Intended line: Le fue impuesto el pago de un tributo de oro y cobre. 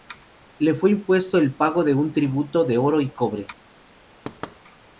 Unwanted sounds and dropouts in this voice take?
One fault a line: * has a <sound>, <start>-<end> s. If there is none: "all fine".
* has a thud, 4.2-4.6 s